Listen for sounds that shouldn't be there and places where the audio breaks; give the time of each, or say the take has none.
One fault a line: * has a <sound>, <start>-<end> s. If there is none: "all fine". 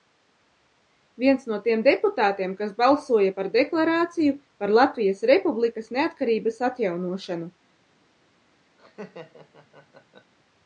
* has a laugh, 8.8-10.3 s